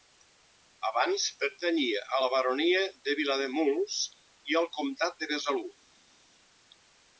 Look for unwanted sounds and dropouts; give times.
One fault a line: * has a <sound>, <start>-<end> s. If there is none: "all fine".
all fine